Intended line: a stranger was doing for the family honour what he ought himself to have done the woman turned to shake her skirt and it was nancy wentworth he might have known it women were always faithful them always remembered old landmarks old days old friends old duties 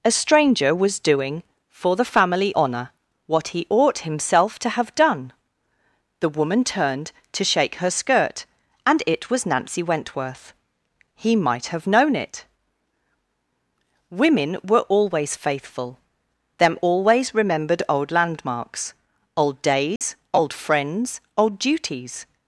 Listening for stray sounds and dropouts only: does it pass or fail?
fail